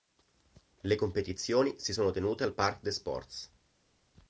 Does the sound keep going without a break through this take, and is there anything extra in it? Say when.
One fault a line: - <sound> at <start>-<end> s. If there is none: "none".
none